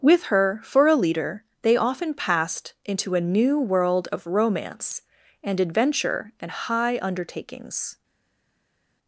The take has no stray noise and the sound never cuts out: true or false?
true